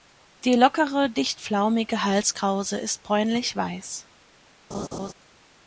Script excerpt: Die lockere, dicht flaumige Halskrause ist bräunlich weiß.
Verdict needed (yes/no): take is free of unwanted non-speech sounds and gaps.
no